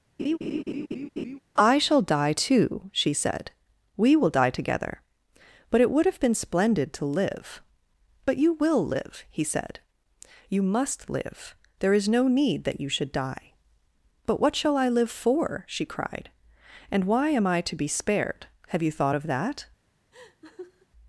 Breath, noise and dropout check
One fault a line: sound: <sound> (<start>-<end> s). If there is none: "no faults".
sound: laugh (0.2-1.4 s)
sound: laugh (20.1-20.9 s)